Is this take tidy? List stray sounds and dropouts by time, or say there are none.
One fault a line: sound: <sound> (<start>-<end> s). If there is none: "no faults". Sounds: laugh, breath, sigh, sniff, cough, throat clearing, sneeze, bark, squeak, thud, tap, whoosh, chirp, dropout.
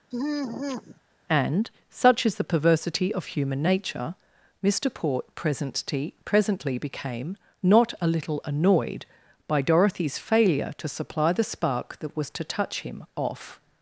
sound: sigh (0.1-1.0 s)